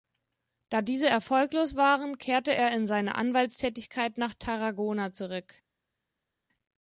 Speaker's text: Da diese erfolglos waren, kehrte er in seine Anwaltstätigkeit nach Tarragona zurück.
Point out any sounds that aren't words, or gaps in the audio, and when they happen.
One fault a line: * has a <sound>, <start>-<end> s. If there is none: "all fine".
all fine